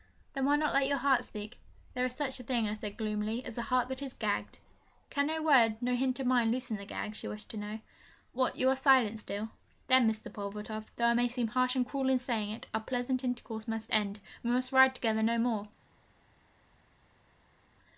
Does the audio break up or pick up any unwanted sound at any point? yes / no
no